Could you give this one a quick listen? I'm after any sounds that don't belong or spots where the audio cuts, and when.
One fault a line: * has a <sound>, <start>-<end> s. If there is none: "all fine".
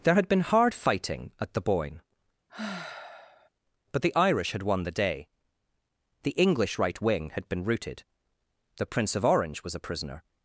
* has a sigh, 2.5-3.5 s